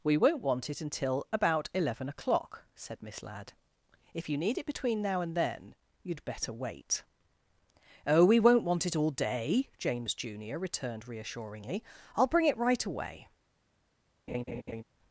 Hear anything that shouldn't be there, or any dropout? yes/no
yes